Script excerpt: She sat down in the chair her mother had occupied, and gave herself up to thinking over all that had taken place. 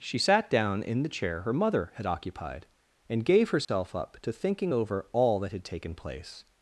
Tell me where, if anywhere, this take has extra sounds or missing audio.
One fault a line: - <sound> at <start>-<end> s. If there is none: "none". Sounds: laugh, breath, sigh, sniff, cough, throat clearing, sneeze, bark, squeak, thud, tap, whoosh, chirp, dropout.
- dropout at 3.6-3.7 s